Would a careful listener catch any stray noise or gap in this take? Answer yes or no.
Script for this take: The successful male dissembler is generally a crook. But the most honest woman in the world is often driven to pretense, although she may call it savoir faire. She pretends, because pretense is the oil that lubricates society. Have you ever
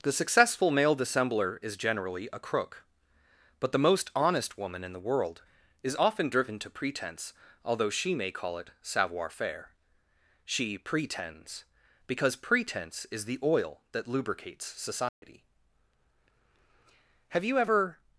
yes